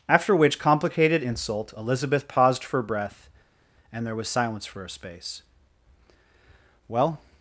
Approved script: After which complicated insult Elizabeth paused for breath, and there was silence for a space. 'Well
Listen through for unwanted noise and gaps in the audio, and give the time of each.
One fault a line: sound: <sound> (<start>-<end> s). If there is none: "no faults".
no faults